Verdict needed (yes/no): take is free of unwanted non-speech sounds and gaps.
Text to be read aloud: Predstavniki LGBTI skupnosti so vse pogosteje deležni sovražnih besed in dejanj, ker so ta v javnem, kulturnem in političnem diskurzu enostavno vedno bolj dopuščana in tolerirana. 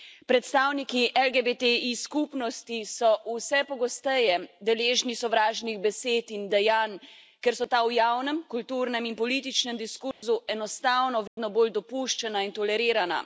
no